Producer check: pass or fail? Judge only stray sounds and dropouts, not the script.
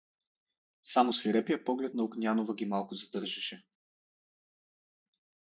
pass